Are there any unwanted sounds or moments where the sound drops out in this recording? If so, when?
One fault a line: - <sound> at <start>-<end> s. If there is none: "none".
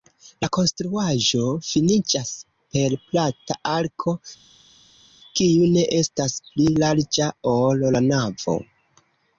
none